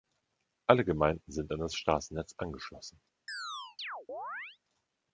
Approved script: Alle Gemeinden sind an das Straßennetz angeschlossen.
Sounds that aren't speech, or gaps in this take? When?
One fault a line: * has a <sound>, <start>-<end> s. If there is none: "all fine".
* has a chirp, 3.3-4.6 s